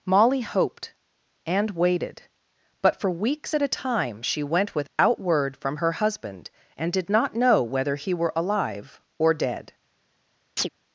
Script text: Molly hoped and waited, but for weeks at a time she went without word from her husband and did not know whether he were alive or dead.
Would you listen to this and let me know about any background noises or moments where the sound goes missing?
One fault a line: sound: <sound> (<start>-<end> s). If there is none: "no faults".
sound: dropout (4.9-5.0 s)
sound: chirp (10.6-10.7 s)